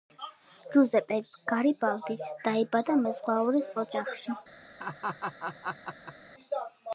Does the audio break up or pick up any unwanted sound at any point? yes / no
yes